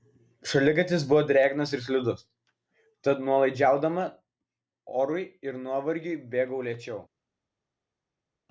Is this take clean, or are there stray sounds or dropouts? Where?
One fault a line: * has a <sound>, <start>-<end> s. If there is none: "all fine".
all fine